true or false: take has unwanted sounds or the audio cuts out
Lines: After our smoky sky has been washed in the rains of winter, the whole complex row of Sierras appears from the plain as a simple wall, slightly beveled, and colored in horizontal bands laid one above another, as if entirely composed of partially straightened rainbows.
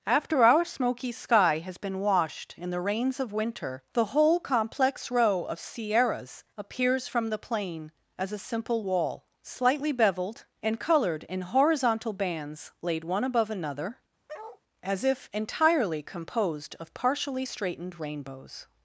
true